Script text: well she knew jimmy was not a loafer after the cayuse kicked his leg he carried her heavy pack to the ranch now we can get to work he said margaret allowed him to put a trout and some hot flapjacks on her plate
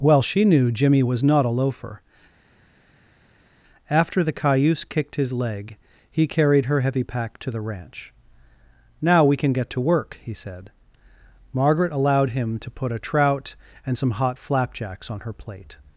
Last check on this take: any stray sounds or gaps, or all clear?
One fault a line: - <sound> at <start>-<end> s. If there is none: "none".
none